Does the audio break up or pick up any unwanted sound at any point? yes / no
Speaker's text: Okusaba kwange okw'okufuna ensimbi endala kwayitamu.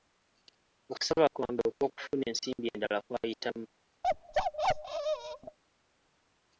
yes